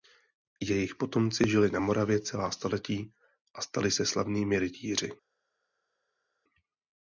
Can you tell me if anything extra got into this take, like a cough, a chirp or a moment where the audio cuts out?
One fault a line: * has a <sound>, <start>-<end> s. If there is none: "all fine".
all fine